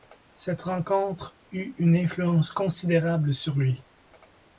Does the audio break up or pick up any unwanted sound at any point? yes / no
no